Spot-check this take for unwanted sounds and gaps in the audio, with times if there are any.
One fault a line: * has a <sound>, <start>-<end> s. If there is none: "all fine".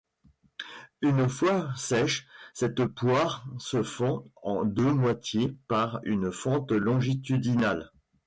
all fine